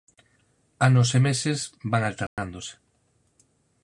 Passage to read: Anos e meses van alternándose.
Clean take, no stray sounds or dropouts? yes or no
no